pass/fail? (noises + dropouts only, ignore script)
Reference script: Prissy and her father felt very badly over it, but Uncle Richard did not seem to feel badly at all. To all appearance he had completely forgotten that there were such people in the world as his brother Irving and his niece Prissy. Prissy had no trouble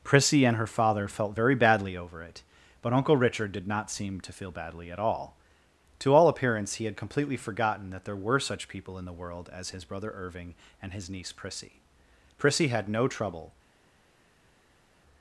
pass